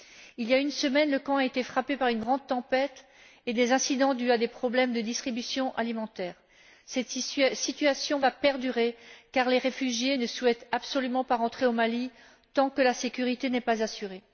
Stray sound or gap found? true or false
false